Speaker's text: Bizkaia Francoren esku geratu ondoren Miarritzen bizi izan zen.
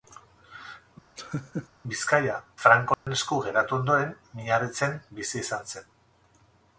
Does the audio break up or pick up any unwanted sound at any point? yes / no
yes